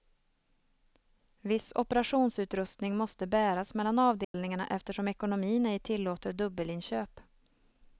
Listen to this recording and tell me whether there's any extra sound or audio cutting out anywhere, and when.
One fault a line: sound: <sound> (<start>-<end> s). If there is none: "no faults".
sound: dropout (4.2-4.3 s)